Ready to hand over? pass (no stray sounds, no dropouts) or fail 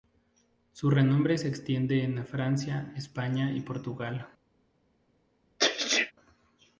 fail